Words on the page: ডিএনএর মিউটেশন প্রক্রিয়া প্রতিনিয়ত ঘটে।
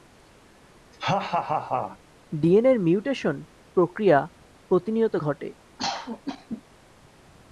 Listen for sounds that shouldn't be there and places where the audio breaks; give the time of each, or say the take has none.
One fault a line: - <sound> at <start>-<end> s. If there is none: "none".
- laugh at 0.9-2.0 s
- cough at 5.8-6.6 s